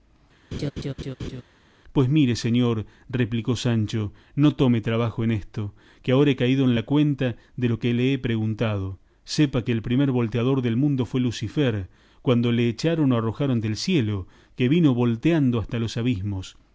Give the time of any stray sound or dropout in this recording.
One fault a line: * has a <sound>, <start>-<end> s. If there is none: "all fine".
* has a laugh, 0.5-1.4 s